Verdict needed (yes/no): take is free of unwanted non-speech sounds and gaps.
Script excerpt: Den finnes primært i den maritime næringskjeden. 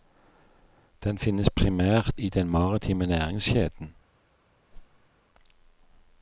no